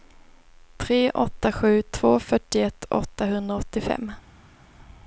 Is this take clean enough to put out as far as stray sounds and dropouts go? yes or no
yes